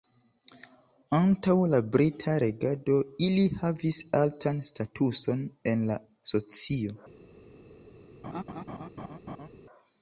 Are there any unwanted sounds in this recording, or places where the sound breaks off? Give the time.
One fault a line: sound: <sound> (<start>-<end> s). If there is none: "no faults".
sound: laugh (8.2-9.5 s)